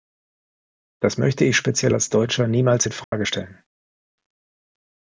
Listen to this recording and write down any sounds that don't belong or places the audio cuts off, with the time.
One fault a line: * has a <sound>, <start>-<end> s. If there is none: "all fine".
* has a dropout, 3.0-3.1 s